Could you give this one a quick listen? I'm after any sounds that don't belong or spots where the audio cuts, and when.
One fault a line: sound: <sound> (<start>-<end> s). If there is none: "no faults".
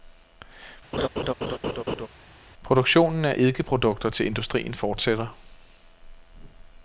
sound: laugh (0.9-2.1 s)